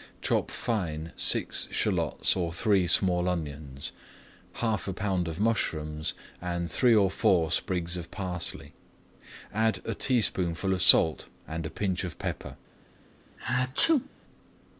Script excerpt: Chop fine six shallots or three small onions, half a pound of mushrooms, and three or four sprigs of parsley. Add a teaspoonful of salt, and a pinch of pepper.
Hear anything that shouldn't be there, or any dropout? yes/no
yes